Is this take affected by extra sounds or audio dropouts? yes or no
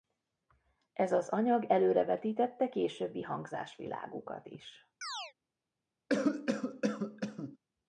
yes